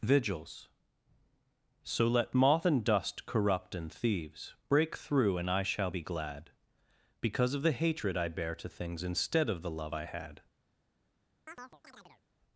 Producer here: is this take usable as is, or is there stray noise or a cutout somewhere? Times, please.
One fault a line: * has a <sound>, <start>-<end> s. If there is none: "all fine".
* has a chirp, 11.5-12.2 s